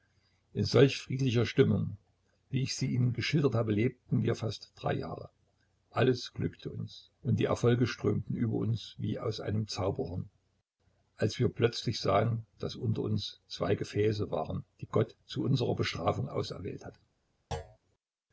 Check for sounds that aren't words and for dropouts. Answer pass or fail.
fail